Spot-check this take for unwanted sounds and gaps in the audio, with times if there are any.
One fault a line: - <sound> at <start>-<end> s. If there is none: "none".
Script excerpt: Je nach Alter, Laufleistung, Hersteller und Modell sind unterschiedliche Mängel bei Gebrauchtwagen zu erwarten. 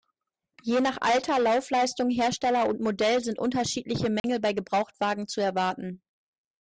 - dropout at 4.2-4.2 s